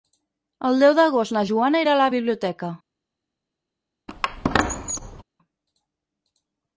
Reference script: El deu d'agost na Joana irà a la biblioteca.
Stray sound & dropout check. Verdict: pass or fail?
fail